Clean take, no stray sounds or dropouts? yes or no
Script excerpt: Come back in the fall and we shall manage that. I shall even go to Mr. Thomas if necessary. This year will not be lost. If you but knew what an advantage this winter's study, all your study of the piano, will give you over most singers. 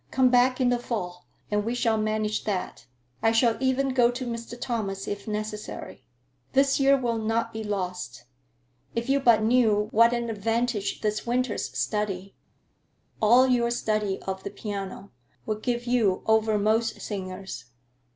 yes